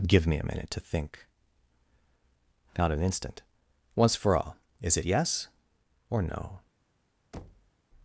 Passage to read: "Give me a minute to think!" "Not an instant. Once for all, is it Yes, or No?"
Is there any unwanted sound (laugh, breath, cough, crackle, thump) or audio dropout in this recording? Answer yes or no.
yes